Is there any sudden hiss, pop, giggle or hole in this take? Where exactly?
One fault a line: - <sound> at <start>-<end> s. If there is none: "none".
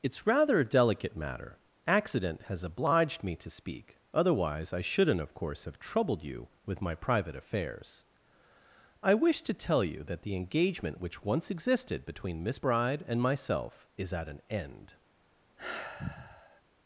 - sigh at 15.6-16.6 s